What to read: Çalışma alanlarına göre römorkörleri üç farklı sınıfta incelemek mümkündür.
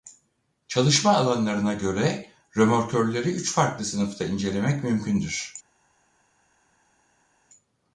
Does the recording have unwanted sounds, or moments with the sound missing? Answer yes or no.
no